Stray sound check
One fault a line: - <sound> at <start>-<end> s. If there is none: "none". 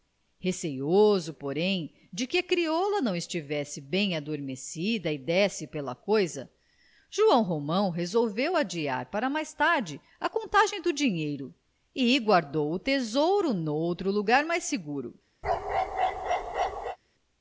- bark at 15.4-17.0 s